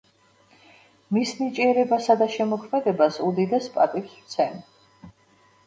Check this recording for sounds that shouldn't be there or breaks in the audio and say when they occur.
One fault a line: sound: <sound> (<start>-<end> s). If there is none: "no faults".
no faults